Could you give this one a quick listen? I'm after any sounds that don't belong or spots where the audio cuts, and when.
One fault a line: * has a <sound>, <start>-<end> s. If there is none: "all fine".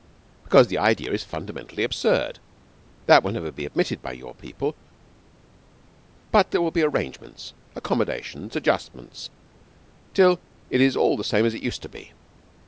all fine